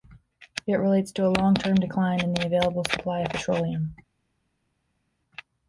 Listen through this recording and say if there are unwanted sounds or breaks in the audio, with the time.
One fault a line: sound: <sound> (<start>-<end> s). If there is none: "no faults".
no faults